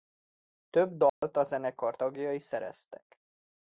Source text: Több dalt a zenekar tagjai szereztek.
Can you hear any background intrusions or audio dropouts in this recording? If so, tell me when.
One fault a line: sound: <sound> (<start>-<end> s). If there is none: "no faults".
sound: dropout (1.1-1.2 s)